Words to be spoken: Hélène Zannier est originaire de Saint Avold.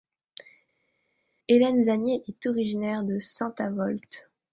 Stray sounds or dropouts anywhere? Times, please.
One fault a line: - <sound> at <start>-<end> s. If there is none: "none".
none